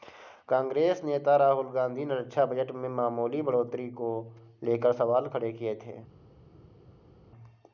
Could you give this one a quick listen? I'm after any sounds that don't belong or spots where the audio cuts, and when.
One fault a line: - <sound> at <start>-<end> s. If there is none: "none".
none